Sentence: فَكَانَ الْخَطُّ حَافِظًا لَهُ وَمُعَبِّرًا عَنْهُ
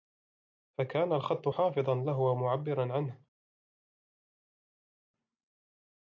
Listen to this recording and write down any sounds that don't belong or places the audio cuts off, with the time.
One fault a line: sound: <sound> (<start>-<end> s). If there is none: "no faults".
no faults